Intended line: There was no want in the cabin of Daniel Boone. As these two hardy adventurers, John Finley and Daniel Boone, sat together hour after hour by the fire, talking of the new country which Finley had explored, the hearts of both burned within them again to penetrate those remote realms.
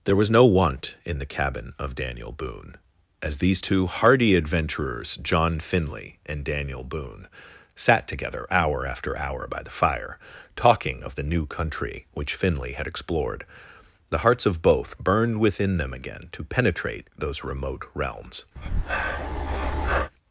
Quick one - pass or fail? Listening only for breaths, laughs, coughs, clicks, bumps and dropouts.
fail